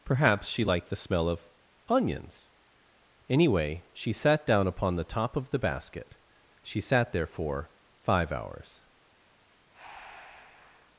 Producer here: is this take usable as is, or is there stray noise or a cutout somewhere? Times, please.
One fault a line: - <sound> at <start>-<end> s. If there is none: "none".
- breath at 9.7-10.9 s